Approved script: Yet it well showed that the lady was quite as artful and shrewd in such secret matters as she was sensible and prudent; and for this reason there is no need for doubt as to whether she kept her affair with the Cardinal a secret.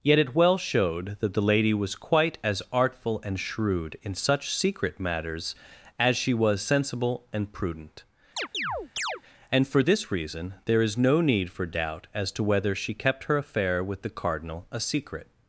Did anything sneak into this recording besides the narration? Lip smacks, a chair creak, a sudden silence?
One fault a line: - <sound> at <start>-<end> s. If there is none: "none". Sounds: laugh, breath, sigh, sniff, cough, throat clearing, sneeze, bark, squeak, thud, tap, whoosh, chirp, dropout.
- chirp at 8.4-9.2 s